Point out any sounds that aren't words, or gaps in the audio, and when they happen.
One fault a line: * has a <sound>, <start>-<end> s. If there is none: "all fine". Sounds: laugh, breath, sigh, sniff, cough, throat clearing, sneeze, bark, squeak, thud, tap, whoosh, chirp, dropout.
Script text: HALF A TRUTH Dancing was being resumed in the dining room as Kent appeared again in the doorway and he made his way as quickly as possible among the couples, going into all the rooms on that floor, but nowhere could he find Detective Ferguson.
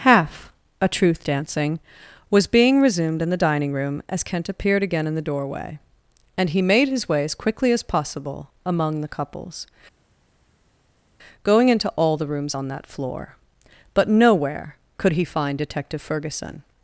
all fine